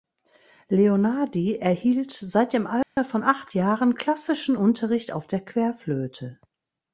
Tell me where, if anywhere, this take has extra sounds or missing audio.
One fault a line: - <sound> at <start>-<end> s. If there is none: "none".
- dropout at 2.8-3.0 s